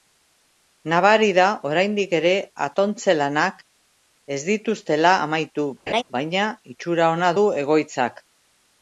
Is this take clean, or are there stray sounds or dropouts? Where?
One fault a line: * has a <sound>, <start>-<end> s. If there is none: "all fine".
* has a laugh, 5.9-6.0 s